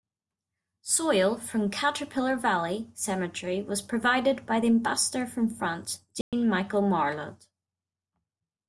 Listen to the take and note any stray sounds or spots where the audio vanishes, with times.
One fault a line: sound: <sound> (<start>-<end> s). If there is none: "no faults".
sound: dropout (6.2-6.3 s)